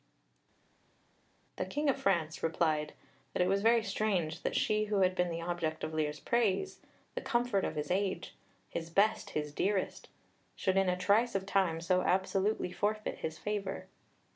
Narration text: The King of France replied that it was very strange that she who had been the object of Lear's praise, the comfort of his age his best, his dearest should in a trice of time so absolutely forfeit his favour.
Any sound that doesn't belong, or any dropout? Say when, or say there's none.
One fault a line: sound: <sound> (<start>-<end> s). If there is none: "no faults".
no faults